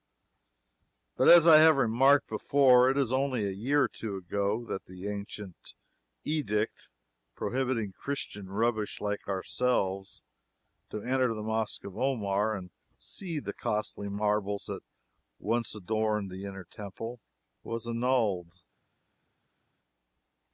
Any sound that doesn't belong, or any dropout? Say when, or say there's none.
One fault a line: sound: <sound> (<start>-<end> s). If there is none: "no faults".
no faults